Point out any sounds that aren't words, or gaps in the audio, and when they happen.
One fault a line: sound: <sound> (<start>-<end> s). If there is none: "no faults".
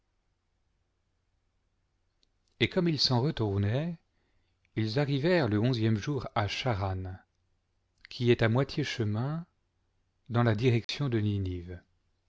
sound: dropout (10.8-10.9 s)